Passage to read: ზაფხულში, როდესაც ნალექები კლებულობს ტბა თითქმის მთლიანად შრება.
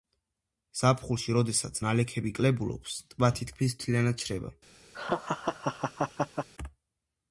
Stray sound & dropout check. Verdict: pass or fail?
fail